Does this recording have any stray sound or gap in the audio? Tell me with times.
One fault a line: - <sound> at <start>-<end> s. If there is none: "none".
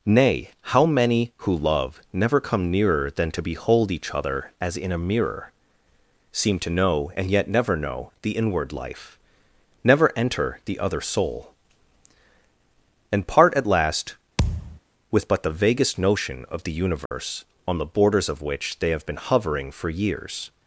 - thud at 14.4-14.8 s
- dropout at 17.1-17.1 s